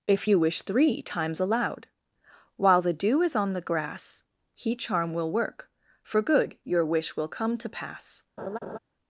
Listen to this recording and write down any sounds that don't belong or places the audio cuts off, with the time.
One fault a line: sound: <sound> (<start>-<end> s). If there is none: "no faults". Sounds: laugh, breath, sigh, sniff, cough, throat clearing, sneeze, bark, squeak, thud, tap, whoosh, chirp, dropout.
sound: laugh (8.4-8.8 s)